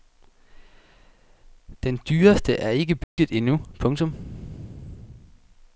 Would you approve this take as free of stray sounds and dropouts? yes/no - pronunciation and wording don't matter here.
no